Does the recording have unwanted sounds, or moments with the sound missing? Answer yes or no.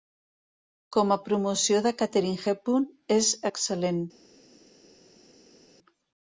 no